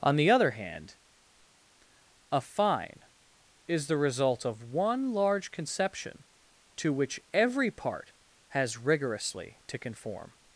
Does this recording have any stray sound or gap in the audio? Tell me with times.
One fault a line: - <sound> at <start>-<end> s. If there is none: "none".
none